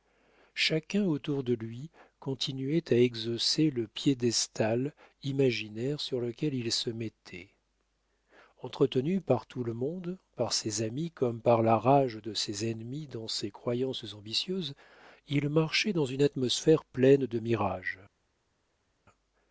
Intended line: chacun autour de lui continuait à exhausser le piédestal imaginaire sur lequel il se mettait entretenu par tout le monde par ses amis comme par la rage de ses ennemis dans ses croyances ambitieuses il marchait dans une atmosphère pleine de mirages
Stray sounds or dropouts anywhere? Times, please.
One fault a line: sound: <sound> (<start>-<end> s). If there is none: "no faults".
no faults